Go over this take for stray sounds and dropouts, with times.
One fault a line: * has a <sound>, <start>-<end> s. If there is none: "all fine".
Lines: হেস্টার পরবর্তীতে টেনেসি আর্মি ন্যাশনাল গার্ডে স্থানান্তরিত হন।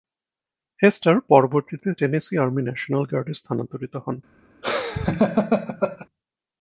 * has a laugh, 4.6-6.1 s